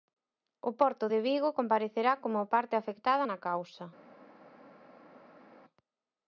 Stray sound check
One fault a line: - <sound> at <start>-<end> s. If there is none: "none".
none